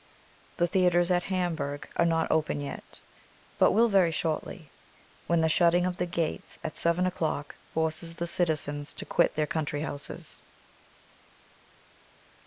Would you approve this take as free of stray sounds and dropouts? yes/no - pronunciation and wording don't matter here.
yes